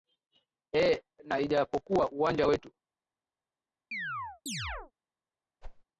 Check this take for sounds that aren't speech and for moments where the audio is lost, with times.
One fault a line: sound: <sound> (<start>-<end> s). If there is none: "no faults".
sound: chirp (3.9-4.9 s)
sound: whoosh (5.6-5.8 s)